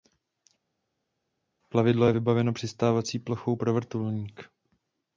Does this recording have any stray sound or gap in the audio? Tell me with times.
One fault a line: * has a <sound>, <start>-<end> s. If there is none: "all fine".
all fine